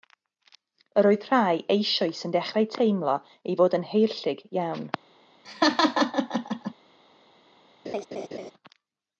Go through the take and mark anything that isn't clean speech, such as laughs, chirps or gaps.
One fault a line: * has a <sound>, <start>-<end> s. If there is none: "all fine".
* has a laugh, 5.4-6.7 s
* has a laugh, 7.8-8.5 s